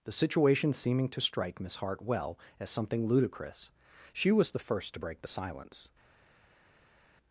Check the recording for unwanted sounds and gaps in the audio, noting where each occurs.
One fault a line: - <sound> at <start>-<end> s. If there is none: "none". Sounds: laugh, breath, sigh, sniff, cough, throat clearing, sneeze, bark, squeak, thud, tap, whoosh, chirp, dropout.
none